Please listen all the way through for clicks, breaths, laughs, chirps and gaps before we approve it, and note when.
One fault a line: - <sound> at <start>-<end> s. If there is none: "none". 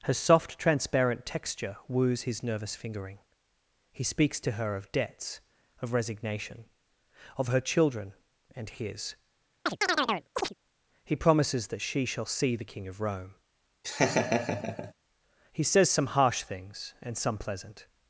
- chirp at 9.7-10.5 s
- laugh at 13.8-14.9 s